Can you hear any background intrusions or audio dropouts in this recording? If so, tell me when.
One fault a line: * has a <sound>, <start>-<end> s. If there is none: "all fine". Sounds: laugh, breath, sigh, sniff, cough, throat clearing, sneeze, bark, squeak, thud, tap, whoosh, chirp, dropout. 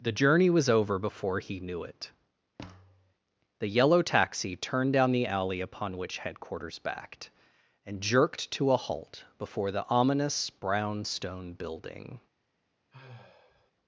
* has a thud, 2.6-3.1 s
* has a sigh, 12.9-13.7 s